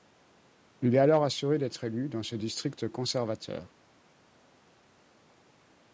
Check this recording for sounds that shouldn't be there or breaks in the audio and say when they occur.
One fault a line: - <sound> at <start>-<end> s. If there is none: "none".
none